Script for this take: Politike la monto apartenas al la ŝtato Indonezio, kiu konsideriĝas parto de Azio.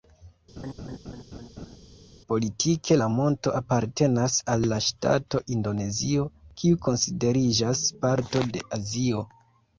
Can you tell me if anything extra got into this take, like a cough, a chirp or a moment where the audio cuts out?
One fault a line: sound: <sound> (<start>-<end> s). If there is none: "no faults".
sound: laugh (0.6-1.8 s)